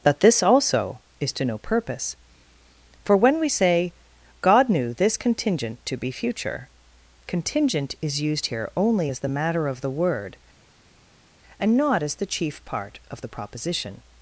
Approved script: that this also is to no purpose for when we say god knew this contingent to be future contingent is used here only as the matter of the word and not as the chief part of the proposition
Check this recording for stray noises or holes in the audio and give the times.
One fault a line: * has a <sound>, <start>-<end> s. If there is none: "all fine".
all fine